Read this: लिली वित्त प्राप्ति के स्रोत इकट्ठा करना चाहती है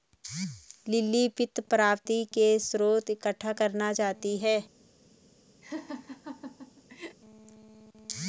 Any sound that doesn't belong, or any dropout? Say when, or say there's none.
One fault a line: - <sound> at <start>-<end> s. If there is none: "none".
- laugh at 5.6-7.2 s